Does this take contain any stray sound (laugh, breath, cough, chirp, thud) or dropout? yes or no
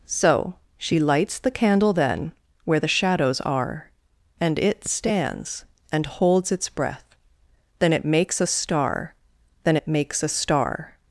no